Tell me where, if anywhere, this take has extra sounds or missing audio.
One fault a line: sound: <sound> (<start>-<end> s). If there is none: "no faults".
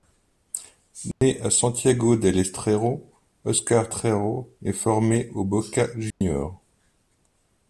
sound: dropout (1.1-1.2 s)
sound: dropout (6.1-6.2 s)